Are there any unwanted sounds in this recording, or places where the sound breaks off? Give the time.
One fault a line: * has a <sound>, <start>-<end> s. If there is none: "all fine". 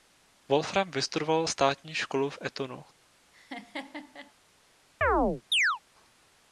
* has a laugh, 3.3-4.3 s
* has a chirp, 5.0-5.8 s